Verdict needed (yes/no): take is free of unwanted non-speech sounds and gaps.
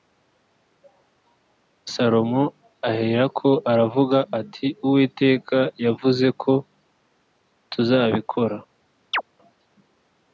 no